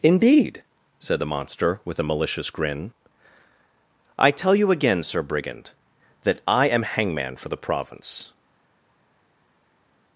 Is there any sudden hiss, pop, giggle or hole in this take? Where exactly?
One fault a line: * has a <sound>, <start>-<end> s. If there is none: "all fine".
all fine